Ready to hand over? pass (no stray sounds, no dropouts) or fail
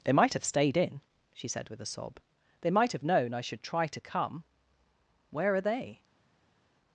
pass